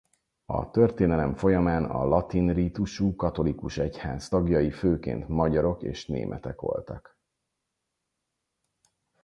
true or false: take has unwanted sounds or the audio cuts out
false